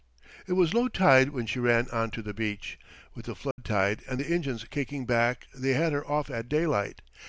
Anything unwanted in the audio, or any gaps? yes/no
yes